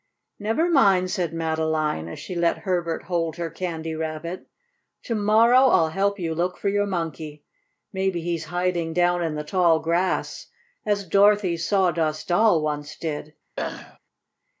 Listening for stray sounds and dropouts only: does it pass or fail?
fail